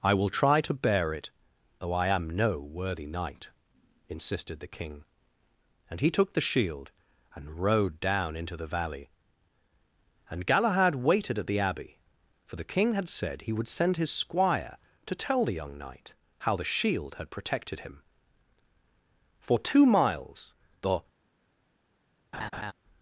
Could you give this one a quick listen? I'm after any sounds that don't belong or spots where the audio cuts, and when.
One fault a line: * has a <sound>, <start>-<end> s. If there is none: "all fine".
* has a laugh, 22.3-22.7 s